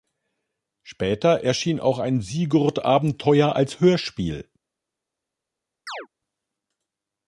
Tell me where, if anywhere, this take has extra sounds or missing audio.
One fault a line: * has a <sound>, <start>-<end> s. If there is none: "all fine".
* has a chirp, 5.9-6.1 s